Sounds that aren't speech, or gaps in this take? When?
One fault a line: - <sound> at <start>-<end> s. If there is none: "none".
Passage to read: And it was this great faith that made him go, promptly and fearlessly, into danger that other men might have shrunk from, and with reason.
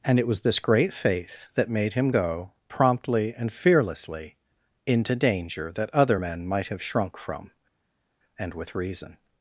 none